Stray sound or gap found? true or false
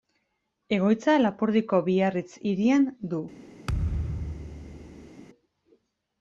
true